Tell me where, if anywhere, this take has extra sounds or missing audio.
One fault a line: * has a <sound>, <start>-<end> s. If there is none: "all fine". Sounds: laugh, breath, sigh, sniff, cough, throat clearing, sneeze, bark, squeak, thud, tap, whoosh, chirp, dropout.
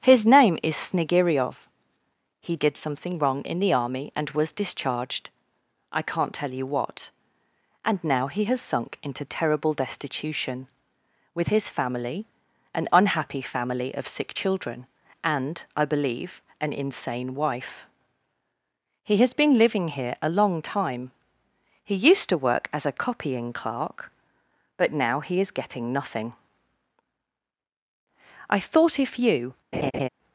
* has a laugh, 29.7-30.1 s